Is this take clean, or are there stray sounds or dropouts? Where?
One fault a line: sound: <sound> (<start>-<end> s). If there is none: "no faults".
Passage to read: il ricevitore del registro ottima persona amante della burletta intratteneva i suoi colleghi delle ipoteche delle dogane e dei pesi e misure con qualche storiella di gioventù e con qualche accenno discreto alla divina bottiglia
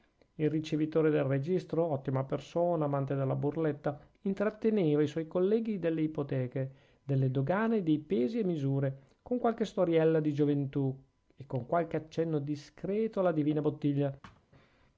sound: thud (14.2-14.5 s)